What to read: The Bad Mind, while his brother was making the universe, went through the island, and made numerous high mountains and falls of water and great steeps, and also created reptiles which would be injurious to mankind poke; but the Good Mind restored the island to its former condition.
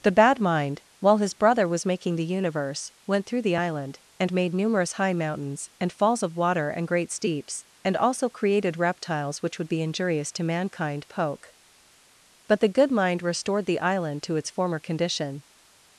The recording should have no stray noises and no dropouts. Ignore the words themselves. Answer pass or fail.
pass